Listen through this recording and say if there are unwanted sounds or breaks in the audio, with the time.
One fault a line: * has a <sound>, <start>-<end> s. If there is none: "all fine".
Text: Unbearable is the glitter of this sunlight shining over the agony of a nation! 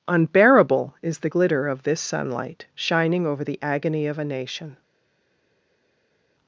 all fine